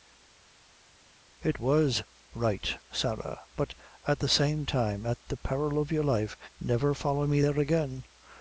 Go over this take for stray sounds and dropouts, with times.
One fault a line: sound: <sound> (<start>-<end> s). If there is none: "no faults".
no faults